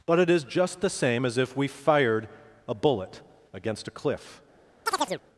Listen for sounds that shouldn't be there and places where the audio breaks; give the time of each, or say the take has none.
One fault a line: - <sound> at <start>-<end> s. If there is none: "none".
- chirp at 4.9-5.2 s